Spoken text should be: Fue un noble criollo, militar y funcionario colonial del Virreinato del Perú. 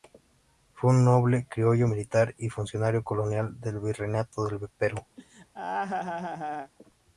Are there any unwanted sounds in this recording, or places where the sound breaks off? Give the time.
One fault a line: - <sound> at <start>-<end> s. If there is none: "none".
- laugh at 5.2-6.7 s